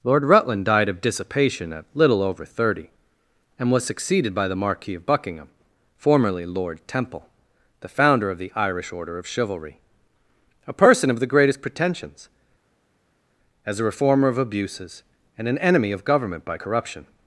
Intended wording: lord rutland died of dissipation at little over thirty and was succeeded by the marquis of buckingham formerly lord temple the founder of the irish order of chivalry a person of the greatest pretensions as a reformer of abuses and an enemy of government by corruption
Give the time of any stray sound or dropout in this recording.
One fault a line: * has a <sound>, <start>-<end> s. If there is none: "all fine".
all fine